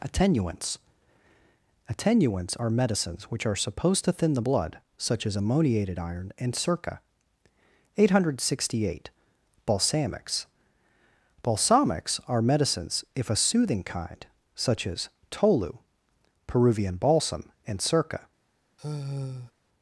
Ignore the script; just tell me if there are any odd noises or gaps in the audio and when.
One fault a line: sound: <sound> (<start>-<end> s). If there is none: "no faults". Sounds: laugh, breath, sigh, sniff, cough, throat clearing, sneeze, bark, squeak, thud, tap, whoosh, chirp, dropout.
sound: sigh (18.8-19.5 s)